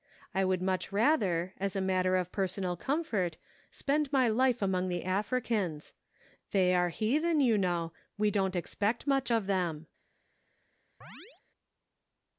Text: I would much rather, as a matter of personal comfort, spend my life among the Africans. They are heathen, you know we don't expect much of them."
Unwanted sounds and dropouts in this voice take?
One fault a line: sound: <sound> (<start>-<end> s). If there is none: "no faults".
sound: chirp (11.0-11.4 s)